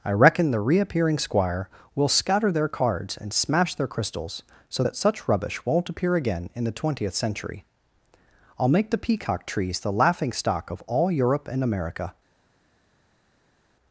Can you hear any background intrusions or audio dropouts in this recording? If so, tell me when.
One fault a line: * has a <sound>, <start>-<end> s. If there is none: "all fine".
all fine